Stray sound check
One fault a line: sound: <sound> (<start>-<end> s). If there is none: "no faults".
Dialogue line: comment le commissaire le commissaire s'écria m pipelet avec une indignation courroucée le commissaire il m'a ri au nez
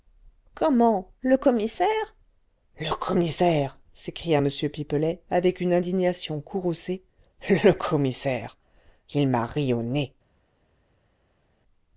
no faults